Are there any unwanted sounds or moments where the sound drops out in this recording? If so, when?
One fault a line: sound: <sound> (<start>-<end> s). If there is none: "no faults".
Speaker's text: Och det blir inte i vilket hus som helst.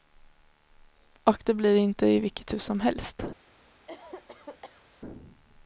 sound: cough (3.9-4.8 s)